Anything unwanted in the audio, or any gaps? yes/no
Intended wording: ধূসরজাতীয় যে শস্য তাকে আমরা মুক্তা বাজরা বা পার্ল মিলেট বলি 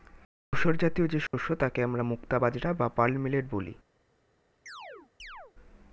yes